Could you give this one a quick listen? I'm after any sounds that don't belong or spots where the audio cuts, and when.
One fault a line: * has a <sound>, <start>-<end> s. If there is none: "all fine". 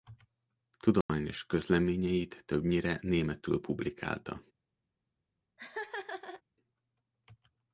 * has a dropout, 1.0-1.1 s
* has a laugh, 5.6-6.4 s